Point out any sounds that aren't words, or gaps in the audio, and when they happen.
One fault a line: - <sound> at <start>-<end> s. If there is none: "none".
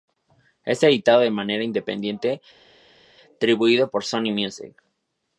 none